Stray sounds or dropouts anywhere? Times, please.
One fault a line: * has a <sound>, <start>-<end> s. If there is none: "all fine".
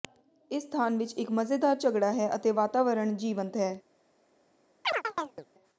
* has a chirp, 4.8-5.5 s